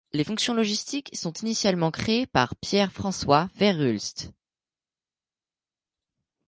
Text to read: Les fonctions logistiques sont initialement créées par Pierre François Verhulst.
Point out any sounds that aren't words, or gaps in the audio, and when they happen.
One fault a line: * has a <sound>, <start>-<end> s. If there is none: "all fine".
all fine